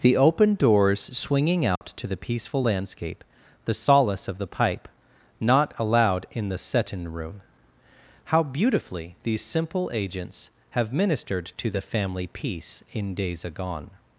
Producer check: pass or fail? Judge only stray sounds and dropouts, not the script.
fail